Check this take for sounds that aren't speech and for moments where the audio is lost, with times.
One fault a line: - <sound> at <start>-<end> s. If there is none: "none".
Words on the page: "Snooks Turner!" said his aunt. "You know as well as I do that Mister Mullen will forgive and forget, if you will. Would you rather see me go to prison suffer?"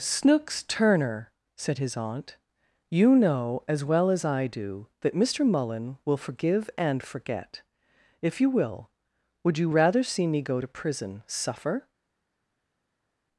none